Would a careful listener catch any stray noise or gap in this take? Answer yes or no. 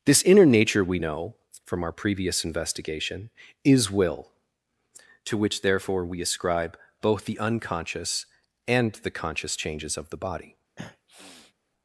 yes